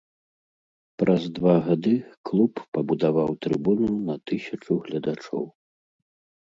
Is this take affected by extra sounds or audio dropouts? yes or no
no